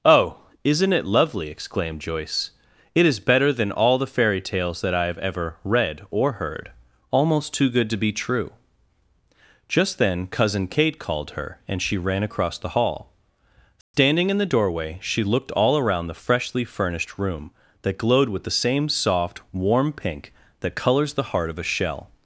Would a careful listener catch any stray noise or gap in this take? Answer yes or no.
yes